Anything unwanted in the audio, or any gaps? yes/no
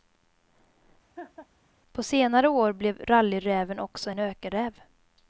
yes